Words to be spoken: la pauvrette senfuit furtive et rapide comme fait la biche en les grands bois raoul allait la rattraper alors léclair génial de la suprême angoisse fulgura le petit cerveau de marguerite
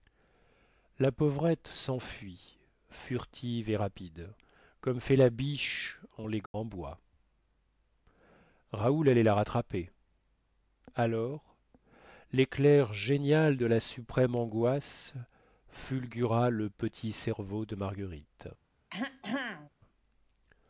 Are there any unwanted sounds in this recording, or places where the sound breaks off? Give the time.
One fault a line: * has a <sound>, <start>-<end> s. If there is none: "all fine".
* has a dropout, 6.5-6.5 s
* has a throat clearing, 18.9-19.7 s